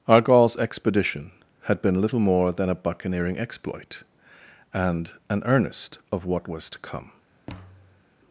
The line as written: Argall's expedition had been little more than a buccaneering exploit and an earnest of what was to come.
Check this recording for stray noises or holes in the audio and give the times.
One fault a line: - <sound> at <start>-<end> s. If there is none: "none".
- thud at 7.5-8.0 s